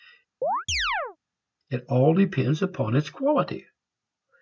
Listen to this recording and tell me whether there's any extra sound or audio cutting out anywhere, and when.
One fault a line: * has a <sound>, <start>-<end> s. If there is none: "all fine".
* has a chirp, 0.4-1.2 s